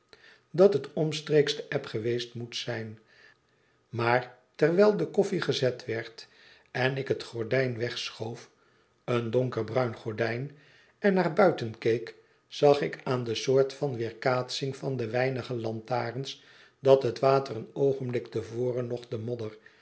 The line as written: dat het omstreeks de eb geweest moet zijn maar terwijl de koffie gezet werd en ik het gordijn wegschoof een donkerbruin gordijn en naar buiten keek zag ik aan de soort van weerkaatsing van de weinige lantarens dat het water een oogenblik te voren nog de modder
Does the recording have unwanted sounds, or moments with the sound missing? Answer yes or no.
no